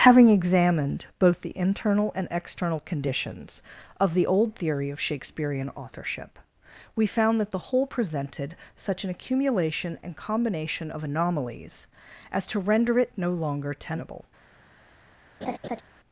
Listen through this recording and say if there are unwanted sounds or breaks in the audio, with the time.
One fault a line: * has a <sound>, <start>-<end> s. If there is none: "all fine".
* has a laugh, 15.4-15.8 s